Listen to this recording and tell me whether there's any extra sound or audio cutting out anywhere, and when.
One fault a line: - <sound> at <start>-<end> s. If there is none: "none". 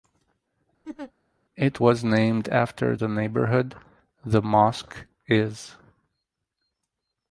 - laugh at 0.8-1.1 s